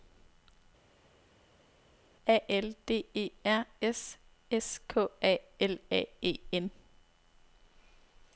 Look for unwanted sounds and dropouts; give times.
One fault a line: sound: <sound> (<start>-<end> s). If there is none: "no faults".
no faults